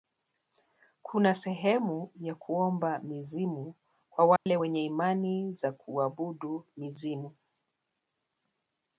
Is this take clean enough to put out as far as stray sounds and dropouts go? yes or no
no